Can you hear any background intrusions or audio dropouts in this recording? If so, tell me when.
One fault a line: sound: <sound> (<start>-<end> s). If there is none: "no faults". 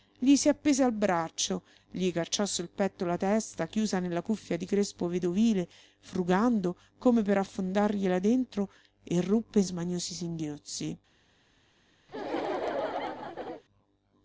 sound: laugh (12.1-13.6 s)